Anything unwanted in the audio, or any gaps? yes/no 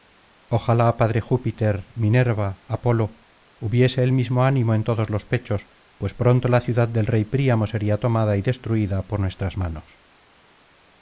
no